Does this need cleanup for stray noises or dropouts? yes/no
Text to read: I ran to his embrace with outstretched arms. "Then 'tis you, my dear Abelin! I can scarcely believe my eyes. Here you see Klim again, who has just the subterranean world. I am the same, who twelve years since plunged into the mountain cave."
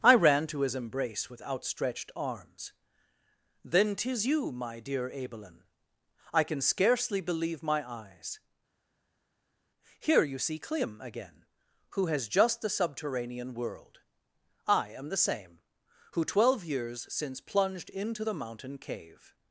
no